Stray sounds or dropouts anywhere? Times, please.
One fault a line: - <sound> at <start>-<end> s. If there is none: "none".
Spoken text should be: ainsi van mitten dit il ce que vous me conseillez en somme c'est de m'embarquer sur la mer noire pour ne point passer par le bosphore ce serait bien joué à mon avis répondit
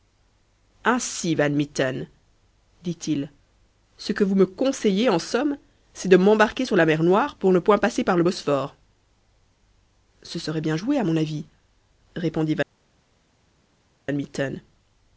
none